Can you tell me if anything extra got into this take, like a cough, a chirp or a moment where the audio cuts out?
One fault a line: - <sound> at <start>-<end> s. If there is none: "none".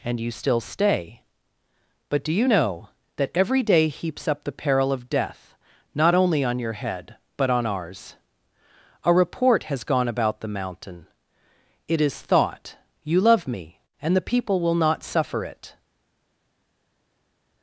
none